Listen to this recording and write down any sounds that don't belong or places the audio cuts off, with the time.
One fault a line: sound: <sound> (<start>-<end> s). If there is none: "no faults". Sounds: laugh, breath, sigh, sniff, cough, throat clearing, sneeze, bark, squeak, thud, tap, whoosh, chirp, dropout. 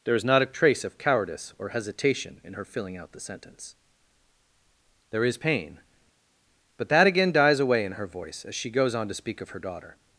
no faults